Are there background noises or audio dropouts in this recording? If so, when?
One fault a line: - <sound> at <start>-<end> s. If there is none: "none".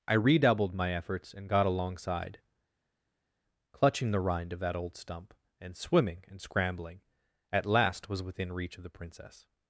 none